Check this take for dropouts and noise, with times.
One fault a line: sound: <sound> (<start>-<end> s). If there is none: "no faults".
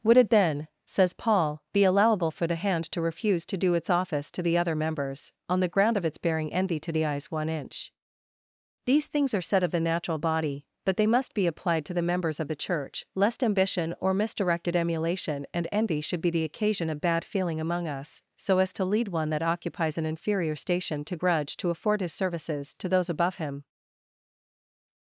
no faults